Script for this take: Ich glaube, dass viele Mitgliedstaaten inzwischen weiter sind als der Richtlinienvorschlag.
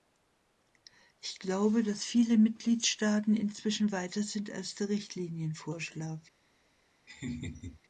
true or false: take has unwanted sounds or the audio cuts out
true